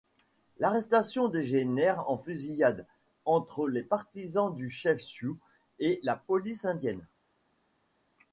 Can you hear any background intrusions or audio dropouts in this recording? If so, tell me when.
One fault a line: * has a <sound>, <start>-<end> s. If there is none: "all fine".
all fine